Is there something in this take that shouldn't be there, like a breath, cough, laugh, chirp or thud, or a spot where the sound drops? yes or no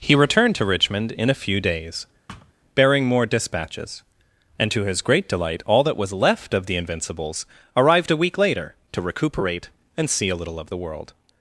yes